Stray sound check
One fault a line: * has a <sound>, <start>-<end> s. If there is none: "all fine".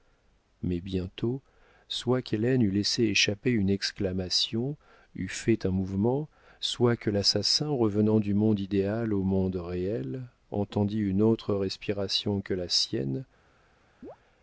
* has a chirp, 14.0-14.2 s